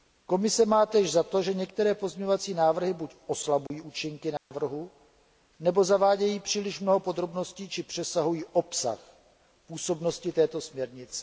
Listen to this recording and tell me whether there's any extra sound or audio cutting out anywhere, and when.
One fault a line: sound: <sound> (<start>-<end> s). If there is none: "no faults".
sound: dropout (3.7-3.7 s)
sound: dropout (4.4-4.5 s)